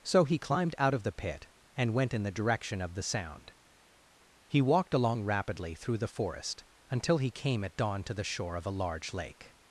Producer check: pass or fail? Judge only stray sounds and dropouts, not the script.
pass